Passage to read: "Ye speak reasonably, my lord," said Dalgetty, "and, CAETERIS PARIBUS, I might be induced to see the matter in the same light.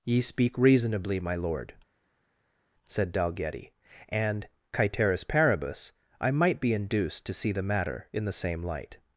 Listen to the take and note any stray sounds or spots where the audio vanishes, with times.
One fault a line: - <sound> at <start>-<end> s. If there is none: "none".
none